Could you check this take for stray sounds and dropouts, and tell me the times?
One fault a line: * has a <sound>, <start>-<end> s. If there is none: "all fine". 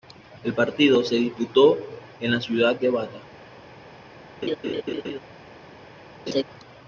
* has a laugh, 4.4-5.2 s
* has a laugh, 6.3-6.4 s